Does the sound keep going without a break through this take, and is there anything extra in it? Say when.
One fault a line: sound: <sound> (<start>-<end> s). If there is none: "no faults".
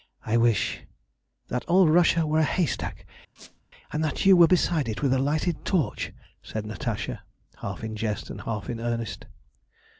sound: squeak (3.4-3.6 s)